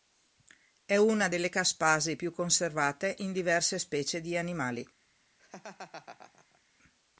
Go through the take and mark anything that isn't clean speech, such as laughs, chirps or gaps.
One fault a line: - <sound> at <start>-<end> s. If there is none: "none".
- laugh at 5.4-6.6 s